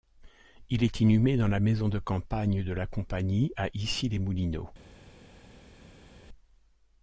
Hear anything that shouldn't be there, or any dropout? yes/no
no